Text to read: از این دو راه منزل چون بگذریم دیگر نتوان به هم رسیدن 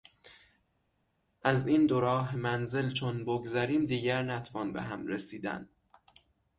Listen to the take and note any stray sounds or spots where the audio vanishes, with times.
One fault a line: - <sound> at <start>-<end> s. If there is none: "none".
none